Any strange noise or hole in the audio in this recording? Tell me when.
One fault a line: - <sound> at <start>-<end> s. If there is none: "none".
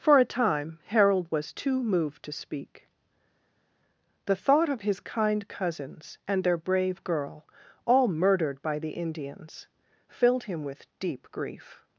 none